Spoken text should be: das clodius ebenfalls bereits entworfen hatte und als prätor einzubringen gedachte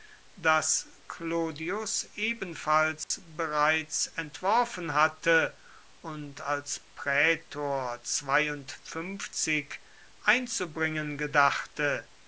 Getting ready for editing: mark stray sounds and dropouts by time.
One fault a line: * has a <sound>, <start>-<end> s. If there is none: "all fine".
* has a dropout, 3.0-3.1 s